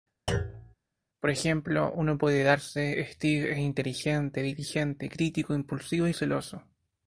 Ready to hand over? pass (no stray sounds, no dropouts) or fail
fail